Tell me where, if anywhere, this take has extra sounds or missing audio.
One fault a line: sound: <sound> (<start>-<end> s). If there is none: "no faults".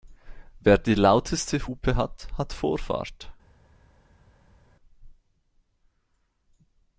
no faults